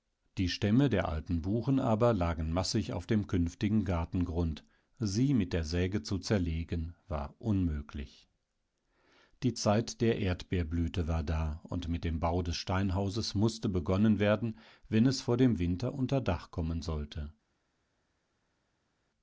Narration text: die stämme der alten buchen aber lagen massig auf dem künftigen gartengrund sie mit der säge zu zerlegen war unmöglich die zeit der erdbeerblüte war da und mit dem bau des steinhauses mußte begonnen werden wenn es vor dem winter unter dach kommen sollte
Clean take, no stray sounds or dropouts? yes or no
yes